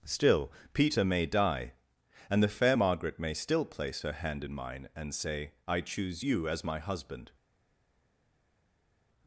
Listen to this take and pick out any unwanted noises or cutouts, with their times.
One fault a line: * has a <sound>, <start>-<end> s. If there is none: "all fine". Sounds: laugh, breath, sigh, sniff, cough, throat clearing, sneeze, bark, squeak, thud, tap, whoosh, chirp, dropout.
all fine